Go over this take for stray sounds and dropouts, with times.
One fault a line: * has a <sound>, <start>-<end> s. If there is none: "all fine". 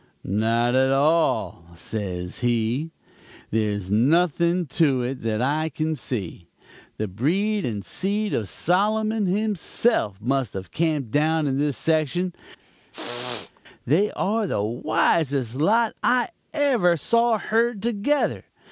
* has a throat clearing, 12.6-13.6 s